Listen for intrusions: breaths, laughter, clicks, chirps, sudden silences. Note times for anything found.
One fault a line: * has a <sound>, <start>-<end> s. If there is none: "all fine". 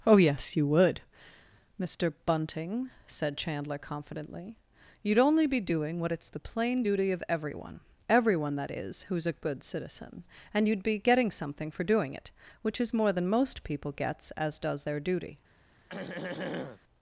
* has a throat clearing, 15.9-16.8 s